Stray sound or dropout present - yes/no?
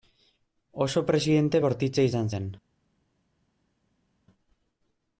no